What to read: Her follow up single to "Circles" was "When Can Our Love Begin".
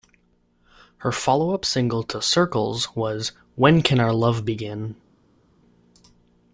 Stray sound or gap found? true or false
false